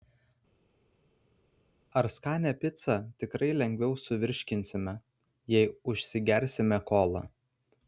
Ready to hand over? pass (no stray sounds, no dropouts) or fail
pass